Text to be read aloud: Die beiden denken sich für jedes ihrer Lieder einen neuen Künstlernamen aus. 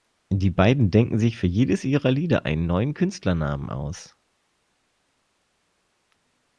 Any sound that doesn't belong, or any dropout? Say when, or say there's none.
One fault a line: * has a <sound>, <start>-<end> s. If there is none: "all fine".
all fine